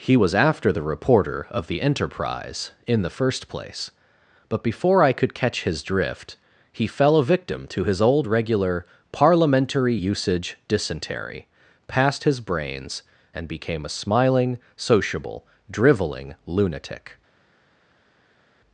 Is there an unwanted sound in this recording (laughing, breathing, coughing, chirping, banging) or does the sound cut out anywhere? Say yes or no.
no